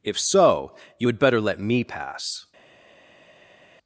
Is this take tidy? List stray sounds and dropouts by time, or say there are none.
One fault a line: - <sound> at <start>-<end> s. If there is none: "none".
none